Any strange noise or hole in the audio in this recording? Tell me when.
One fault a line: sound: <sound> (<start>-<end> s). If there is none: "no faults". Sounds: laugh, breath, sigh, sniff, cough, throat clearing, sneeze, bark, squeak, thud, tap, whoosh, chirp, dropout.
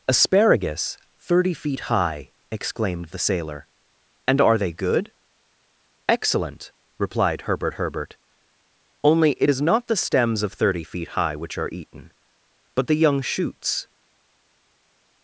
no faults